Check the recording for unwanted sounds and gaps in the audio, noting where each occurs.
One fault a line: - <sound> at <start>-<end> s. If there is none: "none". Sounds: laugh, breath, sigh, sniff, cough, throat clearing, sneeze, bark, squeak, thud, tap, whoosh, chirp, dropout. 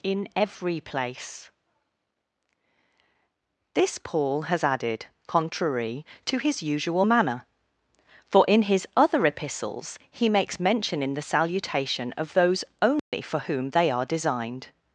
- dropout at 13.0-13.1 s